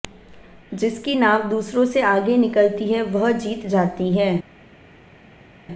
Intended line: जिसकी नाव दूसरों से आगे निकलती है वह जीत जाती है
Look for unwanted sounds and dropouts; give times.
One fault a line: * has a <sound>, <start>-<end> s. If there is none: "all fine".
all fine